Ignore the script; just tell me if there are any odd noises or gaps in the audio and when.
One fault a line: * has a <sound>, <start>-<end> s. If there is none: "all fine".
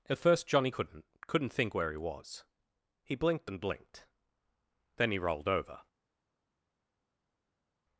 all fine